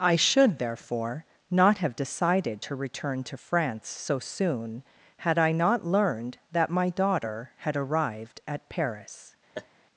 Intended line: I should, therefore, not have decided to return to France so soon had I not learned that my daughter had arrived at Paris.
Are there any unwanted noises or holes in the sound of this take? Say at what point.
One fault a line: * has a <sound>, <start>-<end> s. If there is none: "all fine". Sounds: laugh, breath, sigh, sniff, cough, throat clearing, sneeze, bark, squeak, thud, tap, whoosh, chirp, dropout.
* has a laugh, 9.5-9.7 s